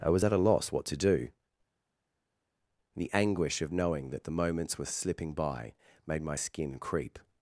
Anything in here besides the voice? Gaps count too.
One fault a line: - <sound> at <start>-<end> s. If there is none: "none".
none